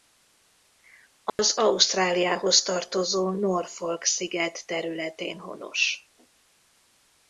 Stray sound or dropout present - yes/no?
yes